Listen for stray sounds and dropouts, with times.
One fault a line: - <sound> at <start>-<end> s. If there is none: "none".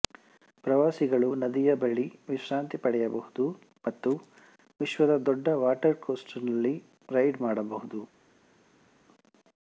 none